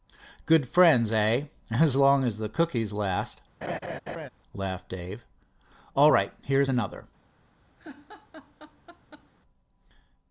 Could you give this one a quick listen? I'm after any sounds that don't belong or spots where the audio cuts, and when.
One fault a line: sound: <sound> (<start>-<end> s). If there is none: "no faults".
sound: laugh (3.6-4.3 s)
sound: laugh (7.8-9.3 s)